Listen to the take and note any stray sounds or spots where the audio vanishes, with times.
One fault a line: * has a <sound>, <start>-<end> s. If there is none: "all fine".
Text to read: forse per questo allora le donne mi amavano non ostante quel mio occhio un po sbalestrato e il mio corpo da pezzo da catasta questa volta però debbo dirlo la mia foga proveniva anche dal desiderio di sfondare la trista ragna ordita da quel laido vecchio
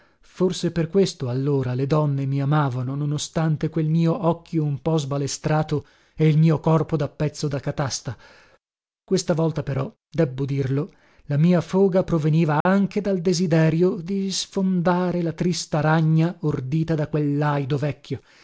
* has a dropout, 12.6-12.7 s